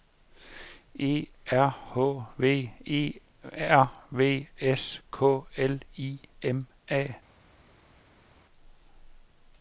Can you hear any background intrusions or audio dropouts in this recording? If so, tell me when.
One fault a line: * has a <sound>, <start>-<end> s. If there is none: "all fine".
all fine